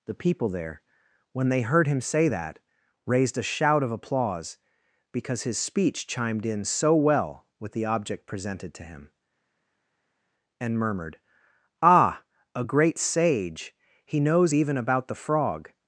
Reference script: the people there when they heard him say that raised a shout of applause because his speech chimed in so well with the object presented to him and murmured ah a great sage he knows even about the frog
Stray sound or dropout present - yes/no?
no